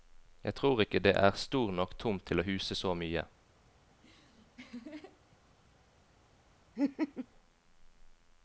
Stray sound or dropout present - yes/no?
yes